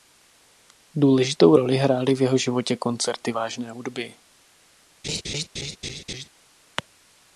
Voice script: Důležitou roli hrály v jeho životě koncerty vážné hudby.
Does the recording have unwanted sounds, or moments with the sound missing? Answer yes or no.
yes